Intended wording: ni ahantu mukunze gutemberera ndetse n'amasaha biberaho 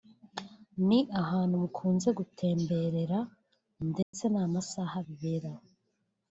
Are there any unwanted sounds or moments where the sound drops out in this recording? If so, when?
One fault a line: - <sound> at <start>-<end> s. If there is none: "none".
- dropout at 4.0-4.1 s